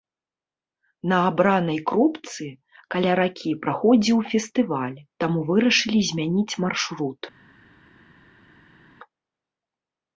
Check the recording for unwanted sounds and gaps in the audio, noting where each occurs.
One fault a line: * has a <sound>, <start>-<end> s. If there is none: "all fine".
all fine